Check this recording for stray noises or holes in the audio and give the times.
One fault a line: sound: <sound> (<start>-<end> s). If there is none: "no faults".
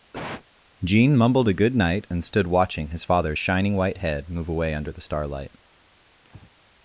sound: cough (0.1-0.4 s)
sound: breath (6.2-6.5 s)